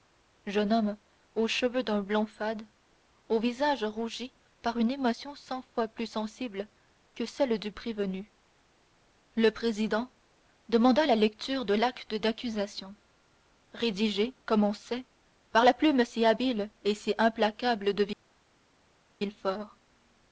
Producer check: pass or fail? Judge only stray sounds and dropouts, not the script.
pass